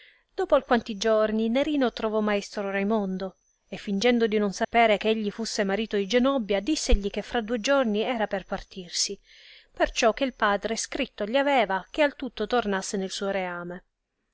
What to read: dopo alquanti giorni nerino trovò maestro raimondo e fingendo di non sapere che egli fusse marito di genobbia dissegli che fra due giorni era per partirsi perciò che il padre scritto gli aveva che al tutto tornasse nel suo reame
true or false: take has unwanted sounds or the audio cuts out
true